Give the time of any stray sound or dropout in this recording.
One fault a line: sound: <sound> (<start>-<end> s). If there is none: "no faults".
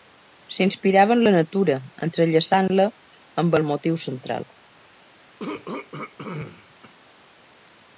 sound: throat clearing (5.4-6.9 s)